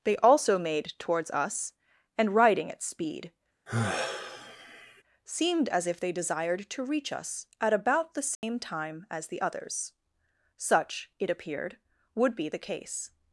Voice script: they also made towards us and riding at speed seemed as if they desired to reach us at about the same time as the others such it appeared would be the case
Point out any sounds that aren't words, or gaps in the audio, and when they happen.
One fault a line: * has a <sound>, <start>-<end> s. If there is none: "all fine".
* has a sigh, 3.7-5.0 s
* has a dropout, 8.4-8.4 s